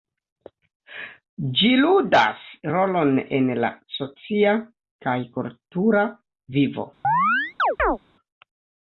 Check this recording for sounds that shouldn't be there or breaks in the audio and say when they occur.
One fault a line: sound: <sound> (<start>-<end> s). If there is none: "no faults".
sound: chirp (7.0-8.0 s)